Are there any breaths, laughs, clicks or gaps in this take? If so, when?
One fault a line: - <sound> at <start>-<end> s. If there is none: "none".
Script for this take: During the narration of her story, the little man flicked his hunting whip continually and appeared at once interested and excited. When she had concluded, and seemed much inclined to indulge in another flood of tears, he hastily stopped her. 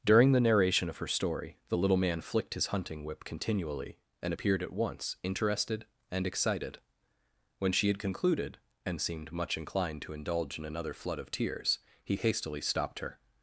none